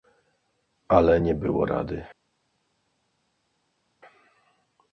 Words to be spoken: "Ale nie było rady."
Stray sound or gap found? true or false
false